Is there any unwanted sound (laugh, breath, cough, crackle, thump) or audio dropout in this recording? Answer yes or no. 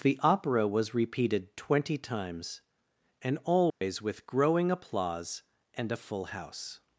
yes